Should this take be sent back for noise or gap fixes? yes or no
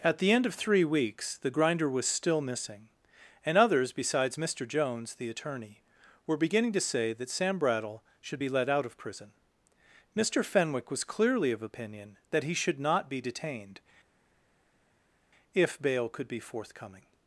no